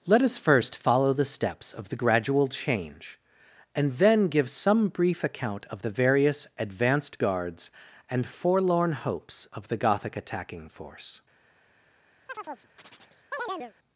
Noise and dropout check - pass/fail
fail